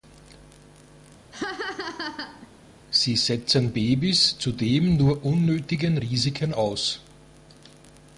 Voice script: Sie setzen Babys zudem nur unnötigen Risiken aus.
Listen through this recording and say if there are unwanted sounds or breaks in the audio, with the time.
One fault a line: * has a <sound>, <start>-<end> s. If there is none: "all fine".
* has a laugh, 1.3-2.5 s